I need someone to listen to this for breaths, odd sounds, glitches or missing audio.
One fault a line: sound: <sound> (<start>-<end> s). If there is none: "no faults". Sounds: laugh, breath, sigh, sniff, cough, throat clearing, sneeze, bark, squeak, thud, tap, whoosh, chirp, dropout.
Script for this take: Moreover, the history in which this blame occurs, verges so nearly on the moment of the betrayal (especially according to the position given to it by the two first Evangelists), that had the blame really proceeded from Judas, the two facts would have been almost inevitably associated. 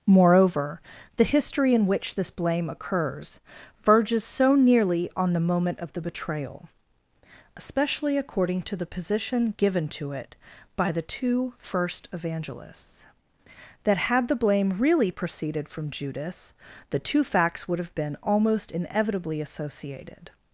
no faults